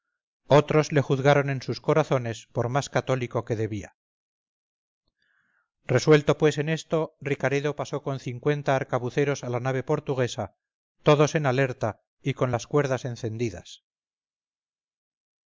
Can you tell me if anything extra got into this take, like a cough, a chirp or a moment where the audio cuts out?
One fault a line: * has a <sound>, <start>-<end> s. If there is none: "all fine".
all fine